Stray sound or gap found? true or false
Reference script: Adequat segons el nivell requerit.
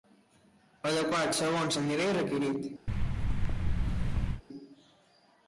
true